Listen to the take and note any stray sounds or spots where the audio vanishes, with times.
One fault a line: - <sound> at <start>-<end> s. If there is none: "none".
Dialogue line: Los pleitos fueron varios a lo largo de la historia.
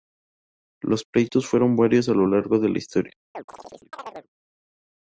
- chirp at 3.3-4.3 s